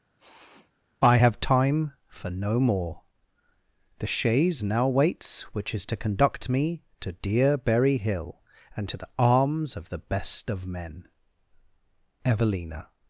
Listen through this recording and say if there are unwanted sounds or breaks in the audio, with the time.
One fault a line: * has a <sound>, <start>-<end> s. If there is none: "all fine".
* has a sniff, 0.2-0.7 s